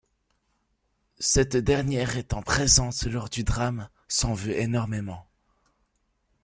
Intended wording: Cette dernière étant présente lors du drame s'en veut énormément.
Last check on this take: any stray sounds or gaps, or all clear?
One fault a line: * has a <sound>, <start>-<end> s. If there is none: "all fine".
all fine